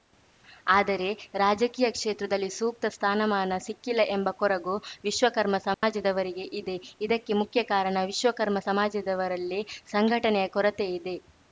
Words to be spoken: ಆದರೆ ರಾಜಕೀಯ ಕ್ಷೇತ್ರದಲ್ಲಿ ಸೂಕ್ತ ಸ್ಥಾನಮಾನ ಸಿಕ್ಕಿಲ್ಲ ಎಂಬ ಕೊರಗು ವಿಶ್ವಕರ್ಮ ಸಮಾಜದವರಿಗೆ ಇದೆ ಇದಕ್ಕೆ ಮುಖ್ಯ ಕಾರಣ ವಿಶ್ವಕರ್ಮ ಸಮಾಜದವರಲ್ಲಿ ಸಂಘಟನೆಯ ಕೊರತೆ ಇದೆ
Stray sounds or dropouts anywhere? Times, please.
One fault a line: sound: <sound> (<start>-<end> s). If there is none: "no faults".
sound: dropout (5.7-5.8 s)